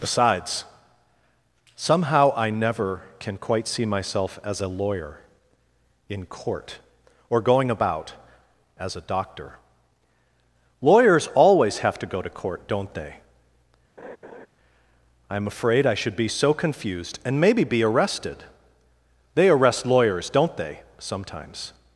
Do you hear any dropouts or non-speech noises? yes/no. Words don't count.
yes